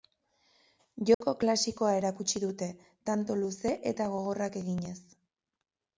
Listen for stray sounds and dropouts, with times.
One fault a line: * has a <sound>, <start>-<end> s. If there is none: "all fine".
* has a dropout, 1.1-1.2 s